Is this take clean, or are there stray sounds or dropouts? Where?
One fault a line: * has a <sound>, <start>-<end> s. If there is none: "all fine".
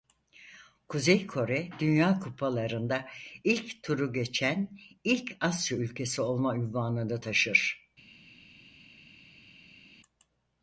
all fine